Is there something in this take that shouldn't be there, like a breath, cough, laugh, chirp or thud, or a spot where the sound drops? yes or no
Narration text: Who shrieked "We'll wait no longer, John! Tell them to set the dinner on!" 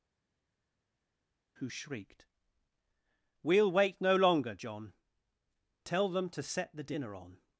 no